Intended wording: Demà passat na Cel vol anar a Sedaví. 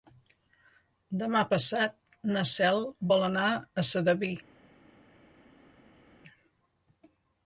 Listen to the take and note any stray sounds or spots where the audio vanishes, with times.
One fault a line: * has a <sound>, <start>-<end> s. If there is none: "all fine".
all fine